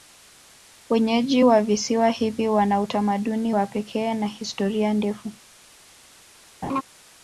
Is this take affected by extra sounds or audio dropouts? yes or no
yes